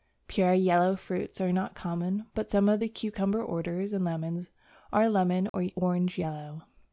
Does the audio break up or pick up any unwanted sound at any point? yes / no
yes